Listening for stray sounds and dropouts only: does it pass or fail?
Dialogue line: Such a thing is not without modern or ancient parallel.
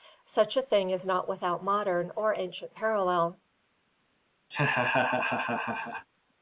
fail